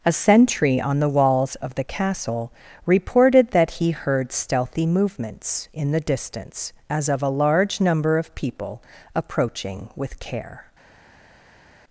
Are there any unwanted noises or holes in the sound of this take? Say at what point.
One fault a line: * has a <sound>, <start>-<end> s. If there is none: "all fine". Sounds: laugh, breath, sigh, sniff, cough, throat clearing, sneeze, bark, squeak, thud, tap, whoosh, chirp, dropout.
all fine